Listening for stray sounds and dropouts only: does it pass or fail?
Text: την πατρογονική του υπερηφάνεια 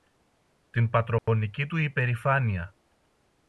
fail